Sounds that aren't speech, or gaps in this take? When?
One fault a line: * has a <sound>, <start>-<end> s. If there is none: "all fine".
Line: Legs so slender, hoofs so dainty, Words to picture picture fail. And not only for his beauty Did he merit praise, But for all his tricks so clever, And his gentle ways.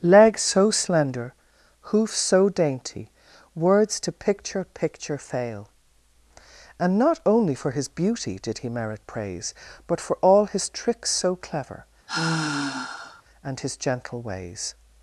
* has a sigh, 12.1-13.2 s